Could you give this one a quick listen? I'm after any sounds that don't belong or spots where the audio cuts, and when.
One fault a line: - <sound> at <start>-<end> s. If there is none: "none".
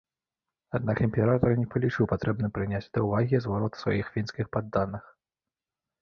none